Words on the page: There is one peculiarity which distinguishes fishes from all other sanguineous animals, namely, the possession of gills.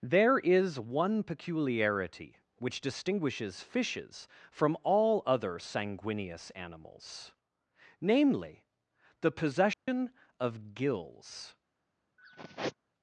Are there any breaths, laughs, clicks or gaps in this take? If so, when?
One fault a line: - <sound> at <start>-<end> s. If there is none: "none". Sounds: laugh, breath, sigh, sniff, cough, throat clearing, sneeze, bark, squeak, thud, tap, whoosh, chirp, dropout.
- dropout at 9.7-9.9 s
- sigh at 12.2-12.8 s